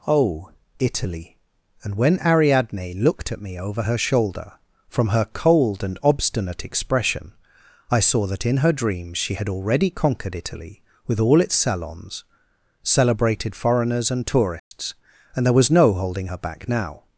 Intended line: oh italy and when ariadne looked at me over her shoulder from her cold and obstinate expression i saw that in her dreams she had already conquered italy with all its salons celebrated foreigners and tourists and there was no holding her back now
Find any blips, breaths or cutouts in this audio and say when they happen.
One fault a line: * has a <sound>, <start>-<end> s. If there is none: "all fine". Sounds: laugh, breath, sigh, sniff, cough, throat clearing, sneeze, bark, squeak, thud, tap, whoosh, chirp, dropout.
* has a dropout, 14.6-14.7 s